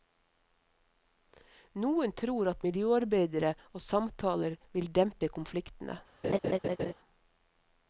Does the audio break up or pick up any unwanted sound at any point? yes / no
yes